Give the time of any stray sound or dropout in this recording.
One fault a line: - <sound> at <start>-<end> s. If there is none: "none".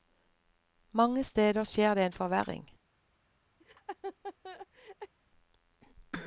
- laugh at 3.6-5.1 s